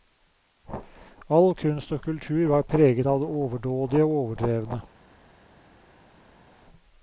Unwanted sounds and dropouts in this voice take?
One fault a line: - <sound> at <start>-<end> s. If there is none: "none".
none